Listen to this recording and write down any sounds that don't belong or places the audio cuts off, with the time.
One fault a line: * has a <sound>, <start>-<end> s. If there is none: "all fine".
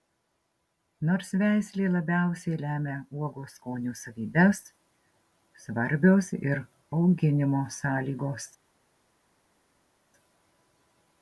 all fine